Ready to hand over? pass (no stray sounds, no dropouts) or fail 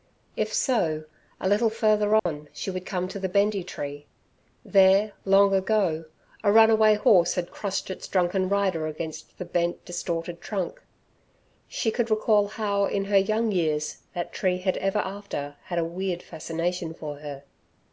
fail